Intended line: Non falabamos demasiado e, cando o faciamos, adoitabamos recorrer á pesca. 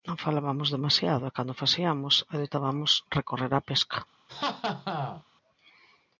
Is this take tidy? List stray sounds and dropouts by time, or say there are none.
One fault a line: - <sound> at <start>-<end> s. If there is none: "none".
- laugh at 4.3-5.2 s